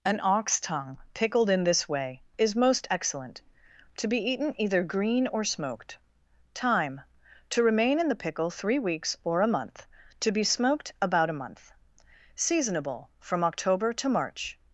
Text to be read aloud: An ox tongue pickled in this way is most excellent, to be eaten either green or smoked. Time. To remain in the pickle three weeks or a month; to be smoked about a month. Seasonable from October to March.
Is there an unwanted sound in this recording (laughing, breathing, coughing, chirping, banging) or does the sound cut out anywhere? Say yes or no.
no